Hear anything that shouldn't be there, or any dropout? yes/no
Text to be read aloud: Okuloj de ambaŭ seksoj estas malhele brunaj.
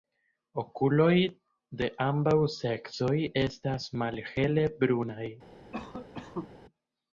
yes